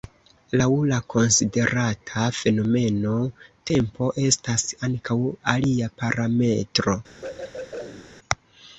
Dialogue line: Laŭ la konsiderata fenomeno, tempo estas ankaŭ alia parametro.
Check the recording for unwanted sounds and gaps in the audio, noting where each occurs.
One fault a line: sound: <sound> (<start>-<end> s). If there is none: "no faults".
sound: throat clearing (7.2-8.1 s)